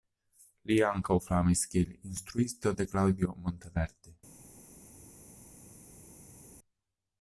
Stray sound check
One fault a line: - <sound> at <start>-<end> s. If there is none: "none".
none